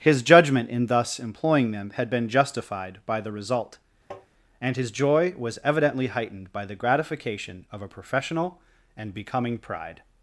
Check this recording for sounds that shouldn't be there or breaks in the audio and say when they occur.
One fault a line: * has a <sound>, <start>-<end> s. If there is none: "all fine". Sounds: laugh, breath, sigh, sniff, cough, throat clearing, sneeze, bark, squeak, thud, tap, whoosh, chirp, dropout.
* has a tap, 4.1-4.3 s